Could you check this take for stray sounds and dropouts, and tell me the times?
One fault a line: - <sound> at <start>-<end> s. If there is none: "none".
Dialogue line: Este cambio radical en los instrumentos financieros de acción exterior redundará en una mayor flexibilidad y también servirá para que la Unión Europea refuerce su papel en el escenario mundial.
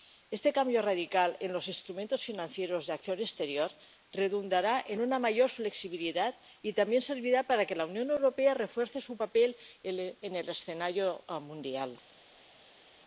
none